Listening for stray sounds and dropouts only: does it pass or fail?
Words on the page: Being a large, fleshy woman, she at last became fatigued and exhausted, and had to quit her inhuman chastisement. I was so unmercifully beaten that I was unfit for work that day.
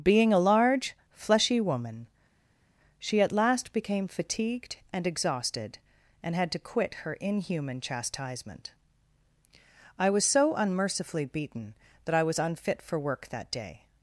pass